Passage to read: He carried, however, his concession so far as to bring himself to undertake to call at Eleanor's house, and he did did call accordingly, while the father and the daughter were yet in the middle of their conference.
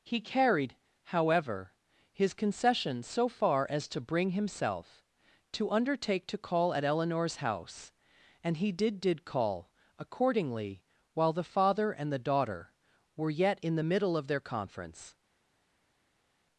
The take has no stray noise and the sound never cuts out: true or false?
true